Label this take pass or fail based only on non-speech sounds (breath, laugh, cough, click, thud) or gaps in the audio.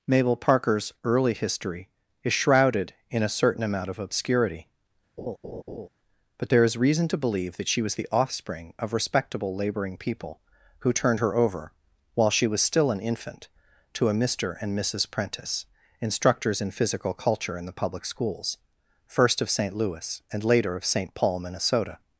fail